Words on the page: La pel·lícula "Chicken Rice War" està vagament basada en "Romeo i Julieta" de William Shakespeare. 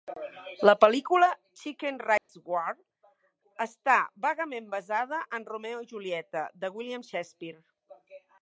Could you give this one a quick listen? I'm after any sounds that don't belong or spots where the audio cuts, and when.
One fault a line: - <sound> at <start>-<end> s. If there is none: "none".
- dropout at 2.2-2.3 s